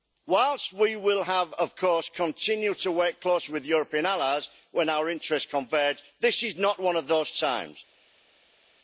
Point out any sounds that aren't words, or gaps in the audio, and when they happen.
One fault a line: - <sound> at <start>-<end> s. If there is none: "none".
none